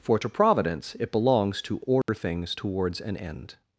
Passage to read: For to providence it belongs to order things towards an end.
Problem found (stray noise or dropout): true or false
true